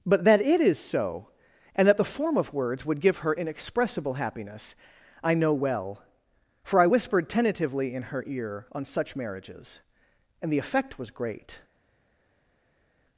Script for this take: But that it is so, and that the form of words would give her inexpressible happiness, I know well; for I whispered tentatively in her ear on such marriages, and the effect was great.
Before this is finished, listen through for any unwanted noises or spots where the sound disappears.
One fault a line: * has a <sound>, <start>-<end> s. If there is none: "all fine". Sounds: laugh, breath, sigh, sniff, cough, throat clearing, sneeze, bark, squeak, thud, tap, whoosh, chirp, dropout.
all fine